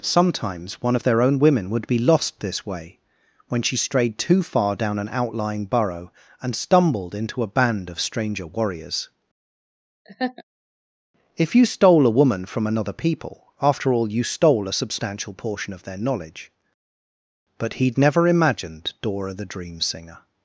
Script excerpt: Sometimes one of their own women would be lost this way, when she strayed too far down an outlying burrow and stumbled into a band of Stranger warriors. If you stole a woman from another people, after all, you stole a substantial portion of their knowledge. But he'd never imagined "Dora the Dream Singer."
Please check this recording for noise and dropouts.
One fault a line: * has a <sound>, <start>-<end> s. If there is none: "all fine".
* has a laugh, 10.0-10.4 s